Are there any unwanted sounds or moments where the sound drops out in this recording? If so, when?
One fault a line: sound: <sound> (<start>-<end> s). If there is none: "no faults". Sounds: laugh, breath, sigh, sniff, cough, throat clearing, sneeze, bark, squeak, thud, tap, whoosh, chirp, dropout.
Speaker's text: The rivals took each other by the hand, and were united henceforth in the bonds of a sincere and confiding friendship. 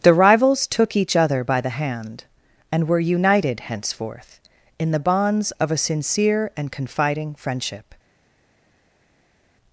no faults